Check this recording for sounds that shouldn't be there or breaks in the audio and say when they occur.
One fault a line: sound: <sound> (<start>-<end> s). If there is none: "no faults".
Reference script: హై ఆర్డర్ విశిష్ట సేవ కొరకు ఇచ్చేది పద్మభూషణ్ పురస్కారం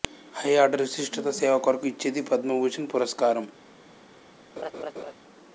sound: laugh (4.6-5.1 s)